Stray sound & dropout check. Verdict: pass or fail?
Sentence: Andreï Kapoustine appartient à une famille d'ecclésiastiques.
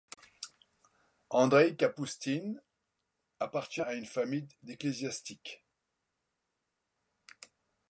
pass